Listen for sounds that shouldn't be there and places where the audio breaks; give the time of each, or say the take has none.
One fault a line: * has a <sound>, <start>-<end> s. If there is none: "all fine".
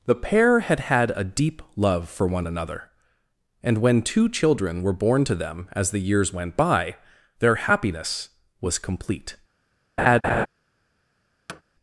* has a laugh, 10.0-10.5 s
* has a thud, 11.5-11.6 s